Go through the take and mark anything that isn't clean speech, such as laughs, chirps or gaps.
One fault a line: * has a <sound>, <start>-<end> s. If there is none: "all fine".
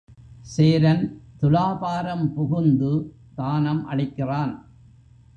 all fine